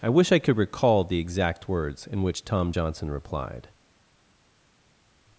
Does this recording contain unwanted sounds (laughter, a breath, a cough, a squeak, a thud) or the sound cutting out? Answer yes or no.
no